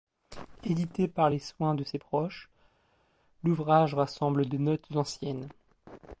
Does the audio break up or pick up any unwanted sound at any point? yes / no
no